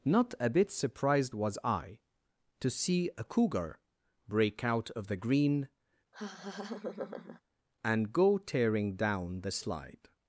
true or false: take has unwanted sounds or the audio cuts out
true